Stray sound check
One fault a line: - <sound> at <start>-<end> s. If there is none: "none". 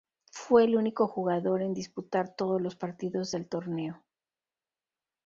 none